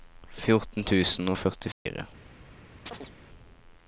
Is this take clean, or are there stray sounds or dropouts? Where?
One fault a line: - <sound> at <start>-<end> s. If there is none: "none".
- dropout at 1.7-1.9 s
- chirp at 2.9-3.1 s